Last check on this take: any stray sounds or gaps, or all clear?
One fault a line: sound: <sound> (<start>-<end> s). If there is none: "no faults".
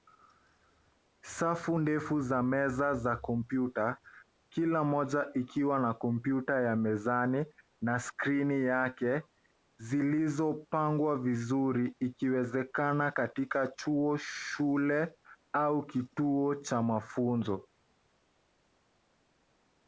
no faults